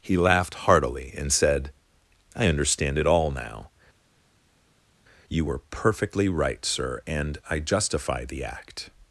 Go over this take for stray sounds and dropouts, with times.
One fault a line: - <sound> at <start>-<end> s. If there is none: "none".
none